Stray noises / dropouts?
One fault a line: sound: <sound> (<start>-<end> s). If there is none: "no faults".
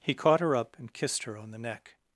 no faults